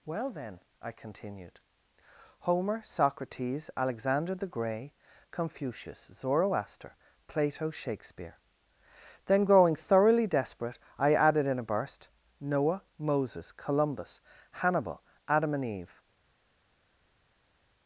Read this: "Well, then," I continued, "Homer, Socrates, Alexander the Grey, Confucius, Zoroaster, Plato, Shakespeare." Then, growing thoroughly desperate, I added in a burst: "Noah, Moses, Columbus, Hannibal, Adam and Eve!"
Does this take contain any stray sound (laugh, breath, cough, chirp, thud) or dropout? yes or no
no